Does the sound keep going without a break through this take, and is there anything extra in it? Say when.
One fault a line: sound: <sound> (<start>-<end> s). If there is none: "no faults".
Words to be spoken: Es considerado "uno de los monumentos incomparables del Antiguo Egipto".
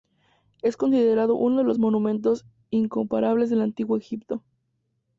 no faults